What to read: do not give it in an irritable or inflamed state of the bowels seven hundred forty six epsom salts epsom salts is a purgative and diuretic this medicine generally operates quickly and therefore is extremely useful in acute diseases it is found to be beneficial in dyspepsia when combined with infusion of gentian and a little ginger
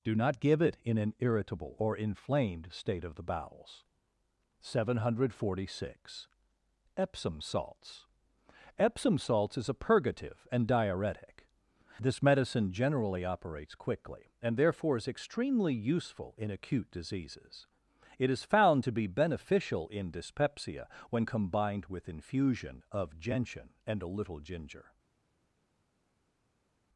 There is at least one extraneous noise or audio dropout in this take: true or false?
false